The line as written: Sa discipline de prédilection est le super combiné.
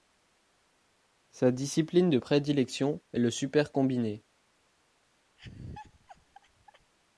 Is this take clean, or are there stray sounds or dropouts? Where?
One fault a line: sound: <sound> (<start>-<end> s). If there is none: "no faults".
sound: laugh (5.4-6.9 s)